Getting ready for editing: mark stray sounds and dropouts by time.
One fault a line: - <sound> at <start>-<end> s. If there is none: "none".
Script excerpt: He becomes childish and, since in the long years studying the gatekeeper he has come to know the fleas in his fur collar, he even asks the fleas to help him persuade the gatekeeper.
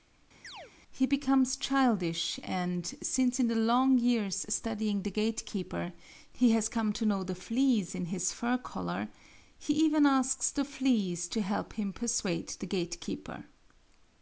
- chirp at 0.4-0.7 s